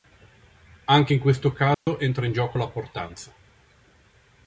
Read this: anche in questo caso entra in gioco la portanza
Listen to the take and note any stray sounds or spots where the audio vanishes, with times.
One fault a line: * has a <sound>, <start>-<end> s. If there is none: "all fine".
* has a dropout, 1.7-1.9 s